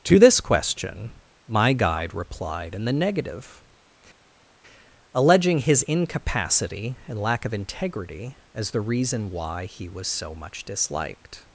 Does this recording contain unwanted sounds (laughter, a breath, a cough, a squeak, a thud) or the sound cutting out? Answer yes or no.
no